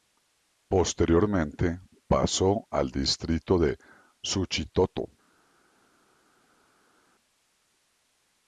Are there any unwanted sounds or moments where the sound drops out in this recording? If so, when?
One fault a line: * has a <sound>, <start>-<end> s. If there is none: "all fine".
all fine